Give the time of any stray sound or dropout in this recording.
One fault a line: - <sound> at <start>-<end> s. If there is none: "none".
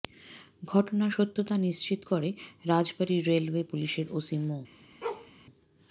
- bark at 5.0-5.3 s